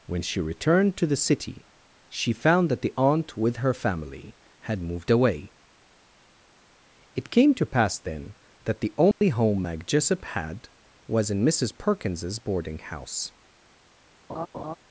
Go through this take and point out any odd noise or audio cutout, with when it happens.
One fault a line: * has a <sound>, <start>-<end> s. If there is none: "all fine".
* has a dropout, 9.1-9.2 s
* has a laugh, 14.3-14.8 s